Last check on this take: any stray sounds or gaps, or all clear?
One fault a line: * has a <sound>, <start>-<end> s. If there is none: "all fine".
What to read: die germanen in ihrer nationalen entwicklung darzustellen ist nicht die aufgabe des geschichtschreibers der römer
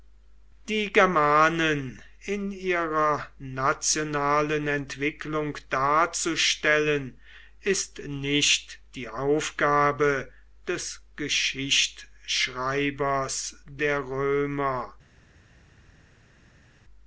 all fine